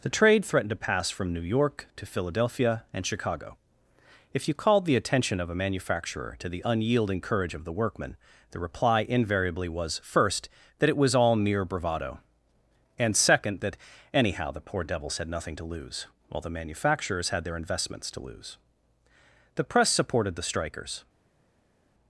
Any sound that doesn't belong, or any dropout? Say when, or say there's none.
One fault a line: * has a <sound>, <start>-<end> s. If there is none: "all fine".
all fine